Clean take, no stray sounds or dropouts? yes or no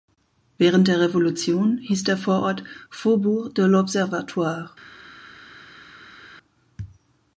yes